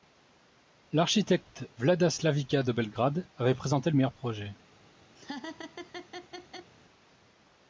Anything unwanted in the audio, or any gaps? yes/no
yes